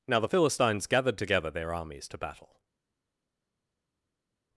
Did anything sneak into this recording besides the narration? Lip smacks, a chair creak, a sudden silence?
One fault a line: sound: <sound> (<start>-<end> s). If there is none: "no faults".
no faults